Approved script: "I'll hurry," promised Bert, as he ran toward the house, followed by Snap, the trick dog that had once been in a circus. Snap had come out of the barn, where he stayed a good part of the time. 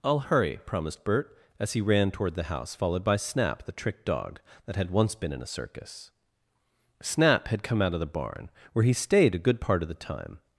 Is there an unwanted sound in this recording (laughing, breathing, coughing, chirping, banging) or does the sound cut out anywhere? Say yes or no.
no